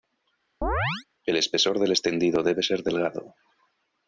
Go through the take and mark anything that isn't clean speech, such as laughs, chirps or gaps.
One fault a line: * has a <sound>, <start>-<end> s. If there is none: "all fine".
* has a chirp, 0.6-1.1 s